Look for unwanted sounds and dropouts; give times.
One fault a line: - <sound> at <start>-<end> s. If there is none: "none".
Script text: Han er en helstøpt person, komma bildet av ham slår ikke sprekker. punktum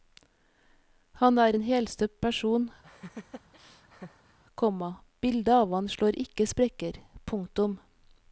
- laugh at 2.8-4.4 s